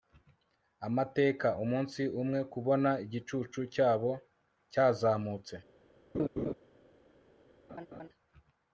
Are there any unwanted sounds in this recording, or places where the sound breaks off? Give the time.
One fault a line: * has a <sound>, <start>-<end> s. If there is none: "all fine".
* has a laugh, 6.1-6.5 s
* has a laugh, 7.7-8.1 s